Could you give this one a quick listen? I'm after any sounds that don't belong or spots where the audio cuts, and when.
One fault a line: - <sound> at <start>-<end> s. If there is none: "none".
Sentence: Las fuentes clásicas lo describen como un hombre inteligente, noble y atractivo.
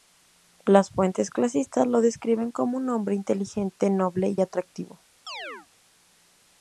- chirp at 5.3-5.7 s